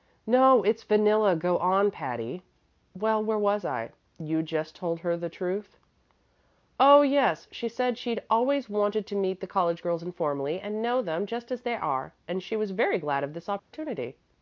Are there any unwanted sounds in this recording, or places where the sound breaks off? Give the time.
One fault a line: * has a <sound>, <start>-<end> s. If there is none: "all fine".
* has a dropout, 13.6-13.7 s